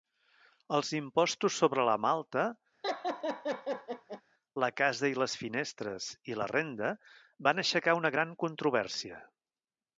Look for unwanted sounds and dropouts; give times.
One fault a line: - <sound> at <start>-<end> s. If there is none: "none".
- laugh at 2.8-4.2 s